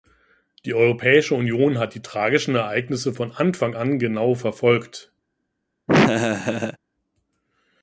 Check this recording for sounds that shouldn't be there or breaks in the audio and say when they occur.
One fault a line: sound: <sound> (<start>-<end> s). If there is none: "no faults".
sound: laugh (5.9-6.8 s)